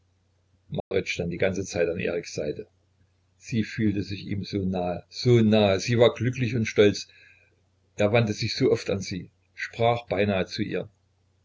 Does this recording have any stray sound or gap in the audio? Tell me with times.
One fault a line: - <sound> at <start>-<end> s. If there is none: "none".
- dropout at 0.8-0.9 s